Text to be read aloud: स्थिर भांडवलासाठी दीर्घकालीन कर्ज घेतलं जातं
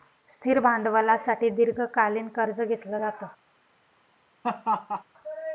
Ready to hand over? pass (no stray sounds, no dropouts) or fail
fail